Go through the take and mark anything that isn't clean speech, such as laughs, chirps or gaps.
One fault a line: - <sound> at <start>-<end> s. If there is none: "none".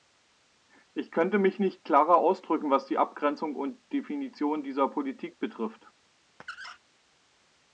- squeak at 6.4-6.8 s